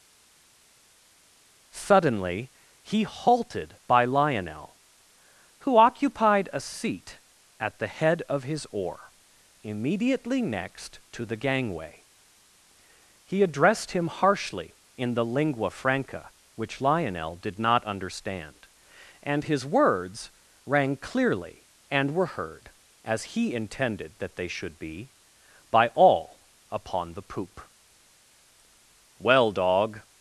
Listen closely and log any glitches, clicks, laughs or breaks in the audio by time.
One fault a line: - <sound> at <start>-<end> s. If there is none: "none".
none